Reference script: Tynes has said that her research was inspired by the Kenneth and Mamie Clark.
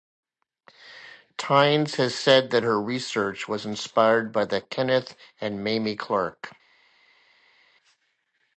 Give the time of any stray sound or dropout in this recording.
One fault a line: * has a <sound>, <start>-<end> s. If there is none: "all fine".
all fine